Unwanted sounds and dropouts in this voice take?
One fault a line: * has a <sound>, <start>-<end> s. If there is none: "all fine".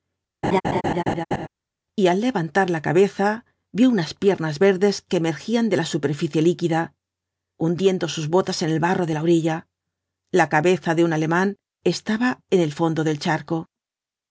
* has a laugh, 0.4-1.5 s